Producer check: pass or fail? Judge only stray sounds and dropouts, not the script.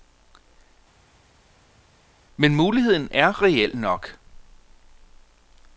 pass